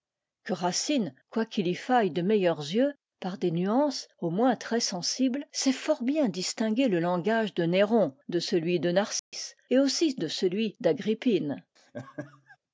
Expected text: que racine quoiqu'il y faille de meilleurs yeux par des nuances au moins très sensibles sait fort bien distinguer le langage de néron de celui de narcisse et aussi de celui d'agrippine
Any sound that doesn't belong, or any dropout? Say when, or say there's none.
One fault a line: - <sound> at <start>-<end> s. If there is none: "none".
- dropout at 9.2-9.3 s
- laugh at 11.8-12.6 s